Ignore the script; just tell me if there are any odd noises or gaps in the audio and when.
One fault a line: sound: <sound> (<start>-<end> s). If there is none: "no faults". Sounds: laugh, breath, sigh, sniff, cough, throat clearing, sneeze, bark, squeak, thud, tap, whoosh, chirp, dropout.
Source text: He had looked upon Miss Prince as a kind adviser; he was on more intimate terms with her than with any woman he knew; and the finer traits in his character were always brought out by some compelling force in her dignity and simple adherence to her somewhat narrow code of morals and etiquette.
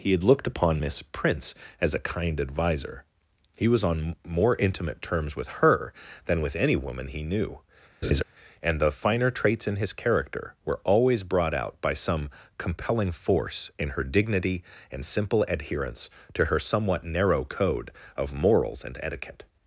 sound: laugh (8.0-8.2 s)